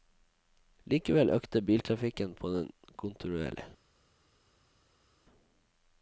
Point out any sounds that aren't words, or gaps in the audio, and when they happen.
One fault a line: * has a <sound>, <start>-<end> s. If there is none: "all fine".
all fine